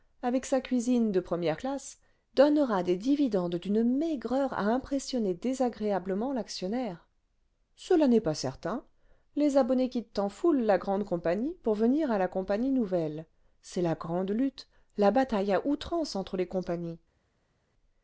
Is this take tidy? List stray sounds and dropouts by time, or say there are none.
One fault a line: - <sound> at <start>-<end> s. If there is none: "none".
none